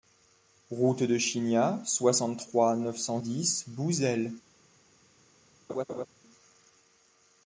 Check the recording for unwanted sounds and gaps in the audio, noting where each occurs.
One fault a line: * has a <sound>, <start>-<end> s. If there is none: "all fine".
* has a laugh, 5.7-6.1 s